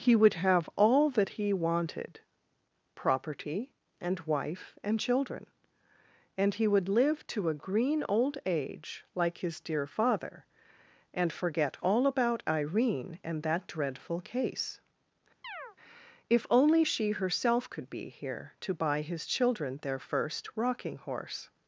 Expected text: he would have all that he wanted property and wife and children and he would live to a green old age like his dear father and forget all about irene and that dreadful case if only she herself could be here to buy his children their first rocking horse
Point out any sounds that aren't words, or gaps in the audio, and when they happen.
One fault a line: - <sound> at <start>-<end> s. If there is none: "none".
- chirp at 15.4-15.8 s